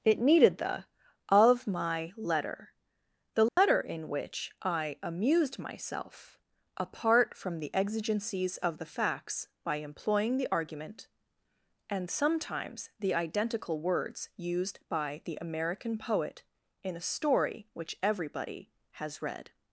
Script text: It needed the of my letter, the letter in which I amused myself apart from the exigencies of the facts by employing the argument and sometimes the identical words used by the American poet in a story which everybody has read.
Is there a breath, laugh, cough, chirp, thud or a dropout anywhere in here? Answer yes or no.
yes